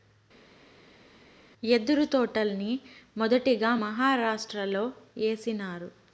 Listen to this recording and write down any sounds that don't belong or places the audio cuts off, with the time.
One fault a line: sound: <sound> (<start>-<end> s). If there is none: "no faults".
no faults